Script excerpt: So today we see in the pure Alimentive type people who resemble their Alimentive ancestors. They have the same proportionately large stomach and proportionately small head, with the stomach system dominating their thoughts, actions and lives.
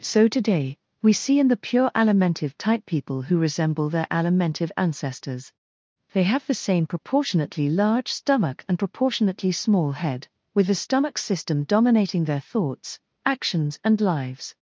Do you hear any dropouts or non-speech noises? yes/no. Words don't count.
no